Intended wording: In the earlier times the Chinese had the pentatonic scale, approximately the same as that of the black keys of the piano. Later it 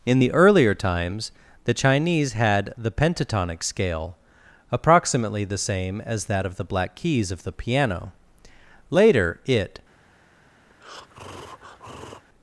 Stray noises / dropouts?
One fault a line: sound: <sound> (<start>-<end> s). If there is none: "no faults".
sound: breath (10.7-12.2 s)